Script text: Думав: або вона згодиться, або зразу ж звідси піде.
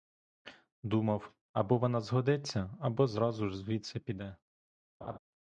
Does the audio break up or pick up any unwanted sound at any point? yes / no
yes